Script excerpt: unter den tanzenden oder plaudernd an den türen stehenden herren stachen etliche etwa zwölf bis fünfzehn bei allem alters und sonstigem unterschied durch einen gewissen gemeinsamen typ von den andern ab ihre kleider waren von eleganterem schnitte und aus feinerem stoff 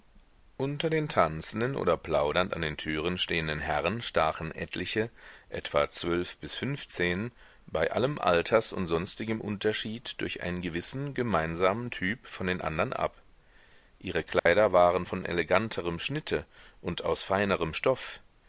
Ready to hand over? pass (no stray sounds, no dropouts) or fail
fail